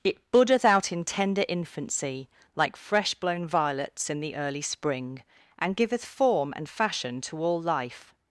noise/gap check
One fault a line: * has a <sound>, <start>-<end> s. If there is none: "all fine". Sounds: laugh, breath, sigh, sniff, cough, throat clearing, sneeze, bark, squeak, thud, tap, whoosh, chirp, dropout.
all fine